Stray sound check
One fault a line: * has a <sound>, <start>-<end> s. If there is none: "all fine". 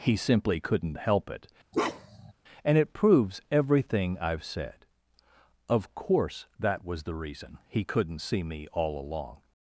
* has a bark, 1.7-2.3 s